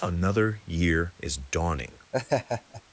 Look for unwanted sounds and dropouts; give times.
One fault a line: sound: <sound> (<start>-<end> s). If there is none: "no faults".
sound: laugh (2.1-2.8 s)